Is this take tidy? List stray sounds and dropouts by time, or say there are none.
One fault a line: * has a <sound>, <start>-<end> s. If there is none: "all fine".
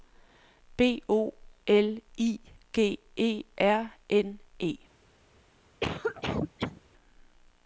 * has a cough, 5.8-6.8 s